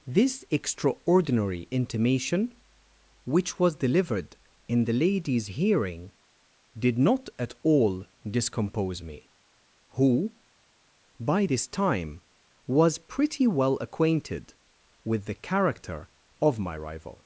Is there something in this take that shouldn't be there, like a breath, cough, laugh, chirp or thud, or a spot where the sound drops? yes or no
no